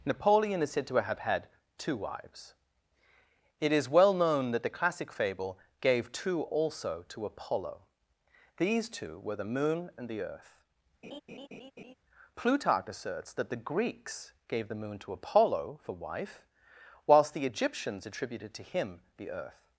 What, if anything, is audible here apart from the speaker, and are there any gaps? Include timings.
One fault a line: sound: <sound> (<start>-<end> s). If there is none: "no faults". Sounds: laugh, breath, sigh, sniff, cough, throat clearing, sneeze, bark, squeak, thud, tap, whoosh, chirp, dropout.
sound: laugh (11.0-11.9 s)